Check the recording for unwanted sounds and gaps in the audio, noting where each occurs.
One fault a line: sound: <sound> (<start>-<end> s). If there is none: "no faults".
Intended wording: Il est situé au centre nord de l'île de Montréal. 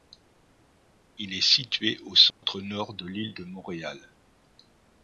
sound: dropout (2.3-2.4 s)